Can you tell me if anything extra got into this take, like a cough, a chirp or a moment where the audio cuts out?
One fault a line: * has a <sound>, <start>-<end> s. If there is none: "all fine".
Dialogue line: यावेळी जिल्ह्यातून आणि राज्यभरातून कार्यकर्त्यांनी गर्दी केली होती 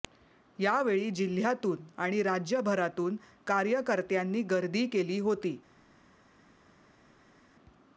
all fine